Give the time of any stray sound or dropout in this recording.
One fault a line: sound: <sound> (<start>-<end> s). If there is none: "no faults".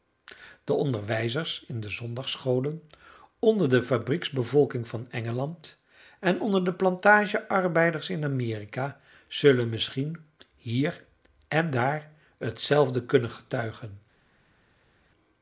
no faults